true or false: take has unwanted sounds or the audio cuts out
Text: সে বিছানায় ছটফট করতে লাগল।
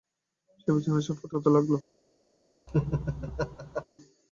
true